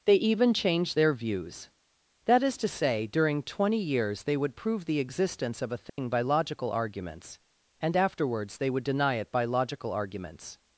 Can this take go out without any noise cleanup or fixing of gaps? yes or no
no